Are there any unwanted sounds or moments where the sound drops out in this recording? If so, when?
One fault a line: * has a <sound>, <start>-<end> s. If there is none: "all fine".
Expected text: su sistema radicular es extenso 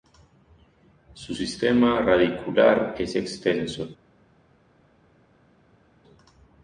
all fine